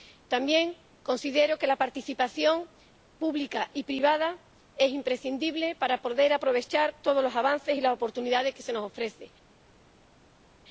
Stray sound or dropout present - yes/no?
no